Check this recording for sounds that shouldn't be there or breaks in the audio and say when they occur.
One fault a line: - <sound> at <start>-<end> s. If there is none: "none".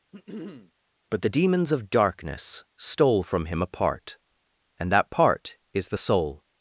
- throat clearing at 0.1-0.7 s